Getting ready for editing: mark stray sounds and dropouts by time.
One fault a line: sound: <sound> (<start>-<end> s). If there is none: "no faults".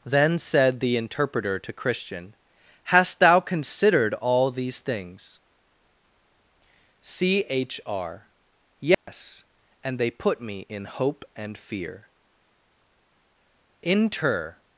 sound: dropout (8.9-9.1 s)